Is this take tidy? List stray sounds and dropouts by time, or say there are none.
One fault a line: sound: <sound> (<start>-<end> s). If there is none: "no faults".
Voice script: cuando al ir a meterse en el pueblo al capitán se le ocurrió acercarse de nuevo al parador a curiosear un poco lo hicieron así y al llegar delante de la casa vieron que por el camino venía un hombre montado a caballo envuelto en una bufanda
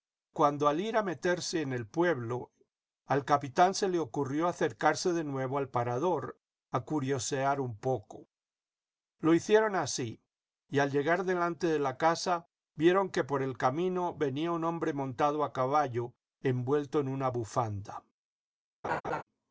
sound: laugh (18.8-19.2 s)